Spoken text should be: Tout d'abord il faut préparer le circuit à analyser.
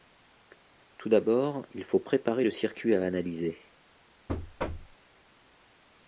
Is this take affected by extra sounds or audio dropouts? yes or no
yes